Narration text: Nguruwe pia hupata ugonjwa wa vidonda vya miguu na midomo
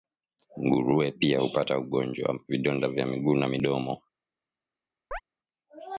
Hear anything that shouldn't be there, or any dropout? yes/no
yes